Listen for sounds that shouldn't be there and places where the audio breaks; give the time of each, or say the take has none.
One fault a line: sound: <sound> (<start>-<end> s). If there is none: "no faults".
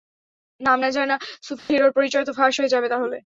sound: dropout (1.6-1.7 s)